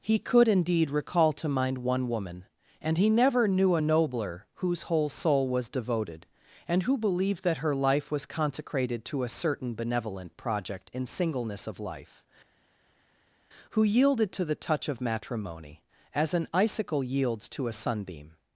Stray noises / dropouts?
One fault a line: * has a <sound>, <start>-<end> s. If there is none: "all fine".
all fine